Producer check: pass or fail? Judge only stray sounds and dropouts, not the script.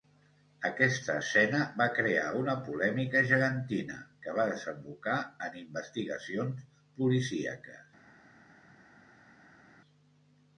pass